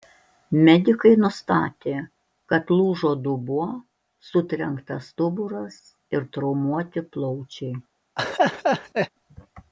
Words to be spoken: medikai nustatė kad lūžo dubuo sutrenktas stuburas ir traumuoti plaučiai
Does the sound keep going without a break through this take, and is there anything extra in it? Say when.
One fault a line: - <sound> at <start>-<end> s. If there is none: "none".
- laugh at 8.2-9.1 s